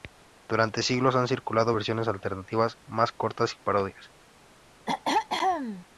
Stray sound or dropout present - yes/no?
yes